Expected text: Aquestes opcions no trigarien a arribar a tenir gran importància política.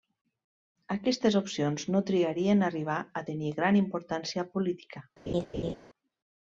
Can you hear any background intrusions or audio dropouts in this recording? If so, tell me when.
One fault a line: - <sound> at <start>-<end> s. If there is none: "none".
- laugh at 5.3-5.8 s